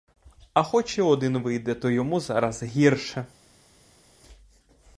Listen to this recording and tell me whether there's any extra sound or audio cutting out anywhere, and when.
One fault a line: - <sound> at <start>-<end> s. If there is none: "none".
none